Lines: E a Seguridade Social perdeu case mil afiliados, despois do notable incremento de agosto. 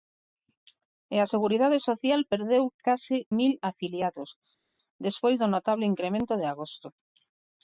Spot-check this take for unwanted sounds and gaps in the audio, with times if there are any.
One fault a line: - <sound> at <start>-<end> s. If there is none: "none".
none